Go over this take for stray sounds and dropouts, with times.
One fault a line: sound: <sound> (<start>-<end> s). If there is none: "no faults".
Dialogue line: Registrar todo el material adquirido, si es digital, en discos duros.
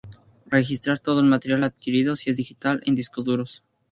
no faults